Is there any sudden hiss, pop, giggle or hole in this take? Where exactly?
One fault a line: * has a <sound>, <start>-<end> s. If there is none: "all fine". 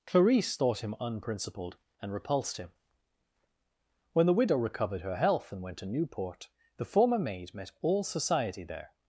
all fine